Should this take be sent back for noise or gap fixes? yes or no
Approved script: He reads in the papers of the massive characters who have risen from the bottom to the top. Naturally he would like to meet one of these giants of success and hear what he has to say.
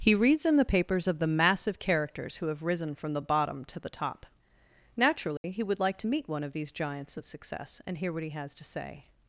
yes